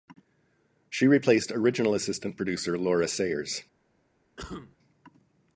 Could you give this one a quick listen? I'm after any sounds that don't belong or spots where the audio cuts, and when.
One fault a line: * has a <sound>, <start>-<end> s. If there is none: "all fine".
* has a cough, 4.4-4.8 s